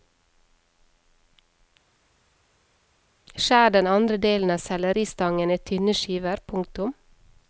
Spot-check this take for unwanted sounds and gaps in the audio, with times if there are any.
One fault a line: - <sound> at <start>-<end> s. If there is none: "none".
none